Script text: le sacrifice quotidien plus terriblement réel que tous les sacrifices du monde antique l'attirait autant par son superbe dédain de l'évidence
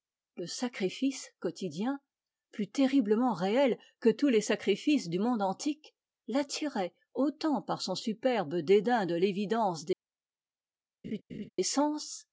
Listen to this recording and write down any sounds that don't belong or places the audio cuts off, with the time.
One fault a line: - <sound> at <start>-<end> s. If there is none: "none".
- laugh at 11.0-11.5 s